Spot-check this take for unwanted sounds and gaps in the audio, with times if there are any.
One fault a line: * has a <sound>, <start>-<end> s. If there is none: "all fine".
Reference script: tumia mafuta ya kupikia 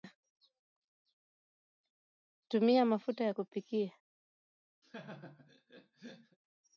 * has a laugh, 4.8-6.4 s